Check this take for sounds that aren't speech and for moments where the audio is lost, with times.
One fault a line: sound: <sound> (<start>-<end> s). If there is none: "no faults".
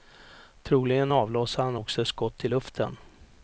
no faults